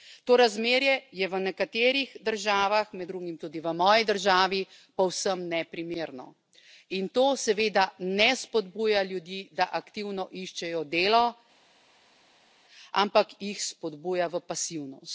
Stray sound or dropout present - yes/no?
no